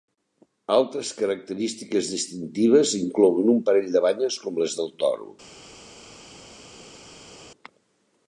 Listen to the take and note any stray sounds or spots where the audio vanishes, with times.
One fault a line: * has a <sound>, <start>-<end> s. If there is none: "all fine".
all fine